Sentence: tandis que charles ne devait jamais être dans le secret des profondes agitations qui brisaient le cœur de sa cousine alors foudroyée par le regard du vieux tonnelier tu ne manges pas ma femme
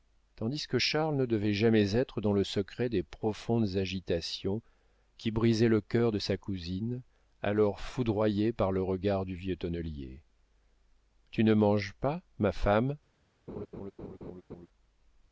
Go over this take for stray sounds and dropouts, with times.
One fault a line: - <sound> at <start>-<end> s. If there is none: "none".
- laugh at 13.5-14.7 s